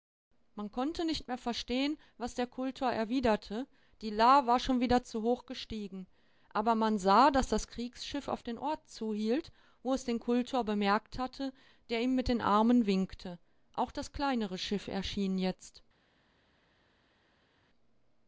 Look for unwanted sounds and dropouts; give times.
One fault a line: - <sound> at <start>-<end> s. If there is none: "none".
none